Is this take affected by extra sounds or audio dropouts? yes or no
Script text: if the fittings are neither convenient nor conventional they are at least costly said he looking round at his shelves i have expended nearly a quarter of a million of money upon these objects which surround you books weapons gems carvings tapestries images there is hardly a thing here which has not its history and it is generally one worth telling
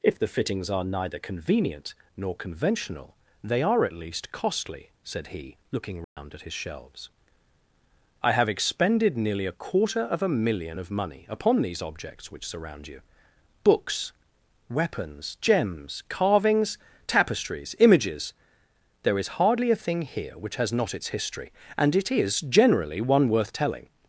yes